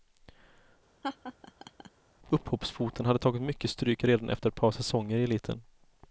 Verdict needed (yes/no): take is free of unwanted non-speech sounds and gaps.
no